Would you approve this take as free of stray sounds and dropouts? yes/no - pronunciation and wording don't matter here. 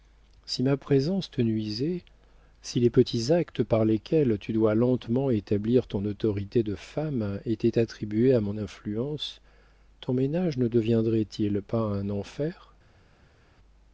yes